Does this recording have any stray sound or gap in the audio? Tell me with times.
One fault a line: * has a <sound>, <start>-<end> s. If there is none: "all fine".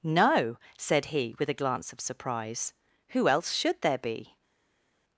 all fine